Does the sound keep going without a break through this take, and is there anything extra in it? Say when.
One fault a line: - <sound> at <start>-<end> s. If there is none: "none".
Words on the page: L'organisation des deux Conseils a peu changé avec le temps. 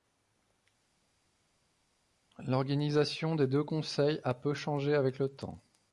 none